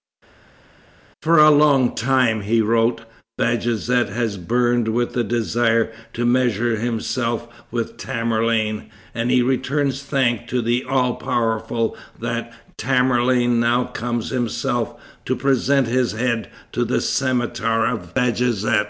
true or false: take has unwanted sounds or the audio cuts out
false